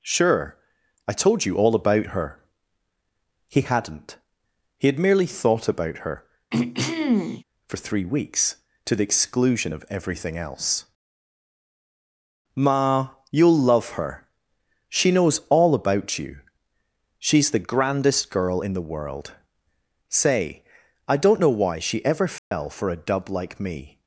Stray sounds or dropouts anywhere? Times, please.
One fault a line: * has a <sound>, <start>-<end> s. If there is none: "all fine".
* has a throat clearing, 6.5-7.4 s
* has a dropout, 22.4-22.5 s